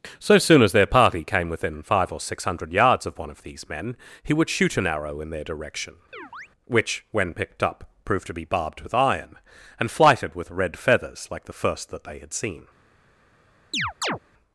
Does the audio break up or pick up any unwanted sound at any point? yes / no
yes